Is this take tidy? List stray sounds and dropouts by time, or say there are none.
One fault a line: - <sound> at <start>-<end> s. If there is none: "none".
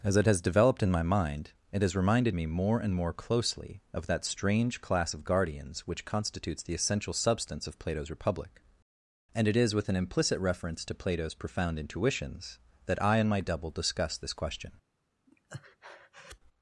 - breath at 15.3-16.4 s